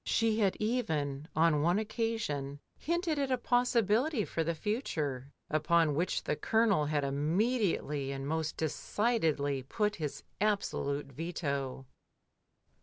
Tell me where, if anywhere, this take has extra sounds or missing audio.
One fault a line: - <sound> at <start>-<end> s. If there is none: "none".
none